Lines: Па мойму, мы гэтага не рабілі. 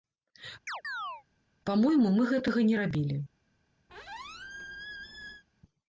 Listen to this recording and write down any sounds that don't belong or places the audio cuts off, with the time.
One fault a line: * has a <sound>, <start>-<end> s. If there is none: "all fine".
* has a chirp, 0.7-1.2 s
* has a squeak, 3.9-5.4 s